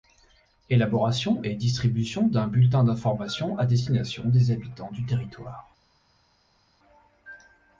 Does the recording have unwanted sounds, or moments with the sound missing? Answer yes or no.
no